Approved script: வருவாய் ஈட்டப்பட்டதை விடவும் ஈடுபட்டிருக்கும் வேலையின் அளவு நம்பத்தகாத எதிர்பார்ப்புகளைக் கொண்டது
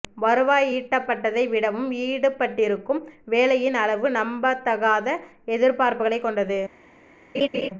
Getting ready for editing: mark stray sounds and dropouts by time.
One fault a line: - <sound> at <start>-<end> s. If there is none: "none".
- laugh at 7.3-7.7 s